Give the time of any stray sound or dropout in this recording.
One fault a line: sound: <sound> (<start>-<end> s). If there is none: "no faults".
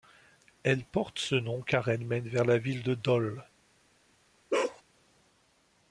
sound: bark (4.5-4.8 s)